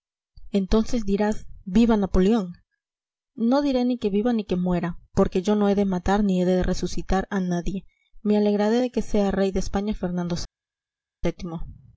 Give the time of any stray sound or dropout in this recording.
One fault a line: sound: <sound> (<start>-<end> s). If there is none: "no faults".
no faults